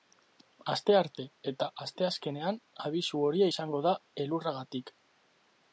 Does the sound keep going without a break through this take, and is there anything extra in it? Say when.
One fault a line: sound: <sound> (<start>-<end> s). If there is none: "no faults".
no faults